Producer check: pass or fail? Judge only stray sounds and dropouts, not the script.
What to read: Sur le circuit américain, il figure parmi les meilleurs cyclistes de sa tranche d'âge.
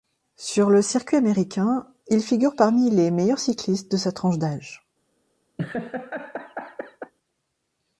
fail